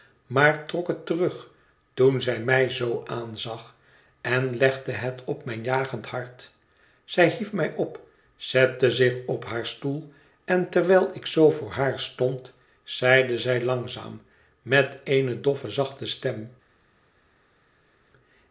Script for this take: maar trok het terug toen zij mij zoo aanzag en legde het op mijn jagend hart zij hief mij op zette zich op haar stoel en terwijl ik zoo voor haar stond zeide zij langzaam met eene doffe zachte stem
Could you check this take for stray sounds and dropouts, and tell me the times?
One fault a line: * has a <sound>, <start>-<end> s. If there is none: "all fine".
all fine